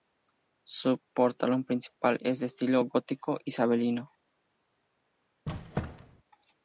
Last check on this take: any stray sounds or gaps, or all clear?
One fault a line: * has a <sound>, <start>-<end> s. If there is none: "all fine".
* has a squeak, 5.5-6.2 s